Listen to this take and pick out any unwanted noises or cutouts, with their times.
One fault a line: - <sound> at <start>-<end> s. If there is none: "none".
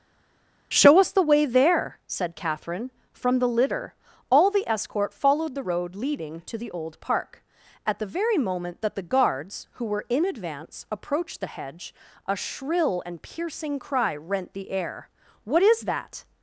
none